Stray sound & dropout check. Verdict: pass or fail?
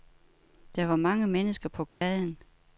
fail